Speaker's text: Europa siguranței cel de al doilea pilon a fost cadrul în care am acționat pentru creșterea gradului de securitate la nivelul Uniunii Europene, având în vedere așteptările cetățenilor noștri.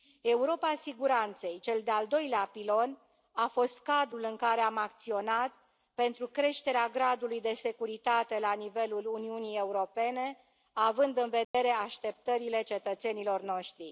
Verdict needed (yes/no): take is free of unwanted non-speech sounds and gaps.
no